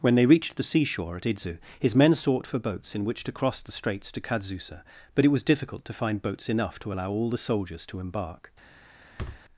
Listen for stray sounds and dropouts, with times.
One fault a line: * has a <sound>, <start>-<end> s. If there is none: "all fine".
* has a thud, 9.2-9.4 s